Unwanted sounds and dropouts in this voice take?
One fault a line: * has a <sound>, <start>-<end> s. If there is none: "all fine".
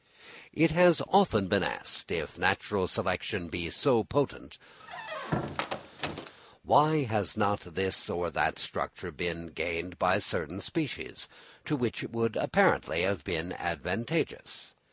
* has a squeak, 4.8-6.3 s